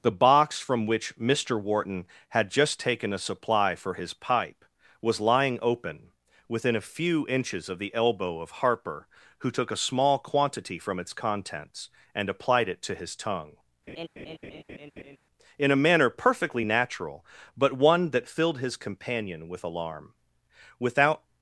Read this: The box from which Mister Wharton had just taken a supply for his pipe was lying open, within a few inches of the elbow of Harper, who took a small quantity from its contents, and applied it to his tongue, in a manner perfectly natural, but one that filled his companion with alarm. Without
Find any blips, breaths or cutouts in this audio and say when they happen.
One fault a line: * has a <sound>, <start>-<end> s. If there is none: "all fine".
* has a laugh, 13.9-15.2 s